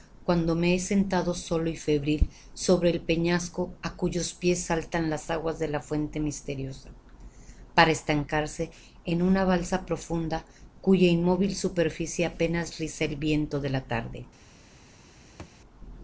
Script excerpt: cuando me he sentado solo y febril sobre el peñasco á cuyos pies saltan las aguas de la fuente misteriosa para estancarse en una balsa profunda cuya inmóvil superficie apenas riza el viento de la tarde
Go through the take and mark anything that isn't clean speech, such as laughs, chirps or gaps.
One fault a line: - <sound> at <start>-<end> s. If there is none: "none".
- thud at 15.4-15.6 s